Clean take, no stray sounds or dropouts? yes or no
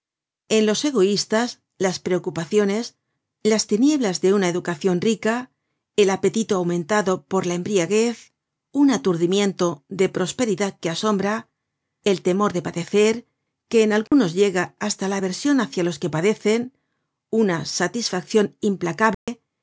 no